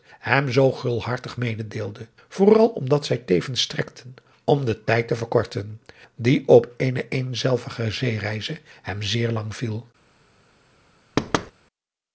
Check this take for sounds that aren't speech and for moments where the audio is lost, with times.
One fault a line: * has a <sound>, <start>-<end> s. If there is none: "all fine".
* has a thud, 11.2-11.5 s